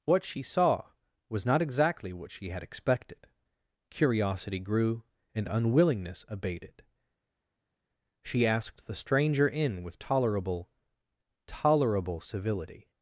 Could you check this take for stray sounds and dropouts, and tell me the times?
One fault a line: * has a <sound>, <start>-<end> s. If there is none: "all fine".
all fine